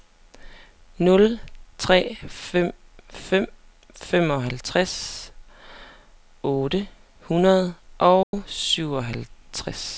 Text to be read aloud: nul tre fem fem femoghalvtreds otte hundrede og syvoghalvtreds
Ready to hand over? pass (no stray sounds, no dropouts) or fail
fail